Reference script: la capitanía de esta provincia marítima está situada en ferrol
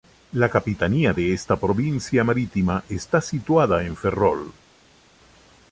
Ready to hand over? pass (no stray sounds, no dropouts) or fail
pass